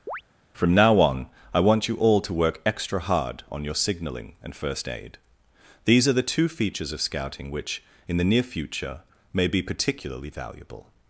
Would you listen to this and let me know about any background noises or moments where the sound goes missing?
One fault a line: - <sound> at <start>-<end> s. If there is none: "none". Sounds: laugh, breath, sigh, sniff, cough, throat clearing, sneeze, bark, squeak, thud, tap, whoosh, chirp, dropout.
- chirp at 0.1-0.2 s